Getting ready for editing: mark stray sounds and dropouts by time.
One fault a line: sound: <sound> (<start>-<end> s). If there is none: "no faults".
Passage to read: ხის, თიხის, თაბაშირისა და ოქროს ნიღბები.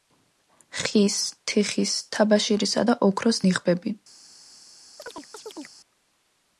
sound: chirp (5.0-5.8 s)